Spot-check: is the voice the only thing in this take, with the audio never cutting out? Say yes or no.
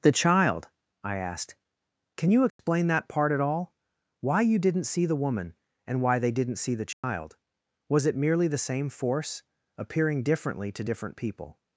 no